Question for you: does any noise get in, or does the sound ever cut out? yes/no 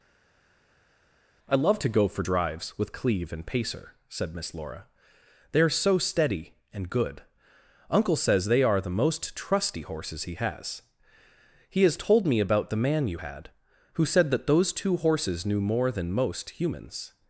no